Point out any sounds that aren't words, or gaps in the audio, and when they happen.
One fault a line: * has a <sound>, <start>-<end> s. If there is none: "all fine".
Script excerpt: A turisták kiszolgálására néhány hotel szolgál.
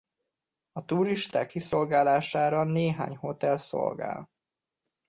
all fine